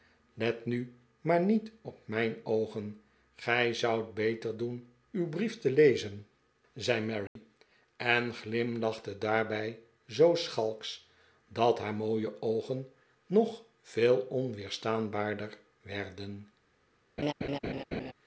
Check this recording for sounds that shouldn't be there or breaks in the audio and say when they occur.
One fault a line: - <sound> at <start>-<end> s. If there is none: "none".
- dropout at 7.3-7.4 s
- laugh at 17.2-18.1 s